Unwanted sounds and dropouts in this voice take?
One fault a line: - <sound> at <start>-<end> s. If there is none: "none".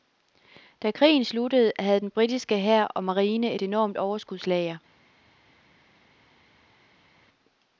none